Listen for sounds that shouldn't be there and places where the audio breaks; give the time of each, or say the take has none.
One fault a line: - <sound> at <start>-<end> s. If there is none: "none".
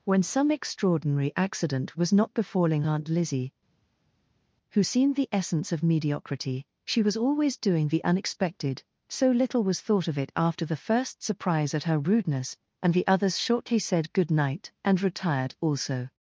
none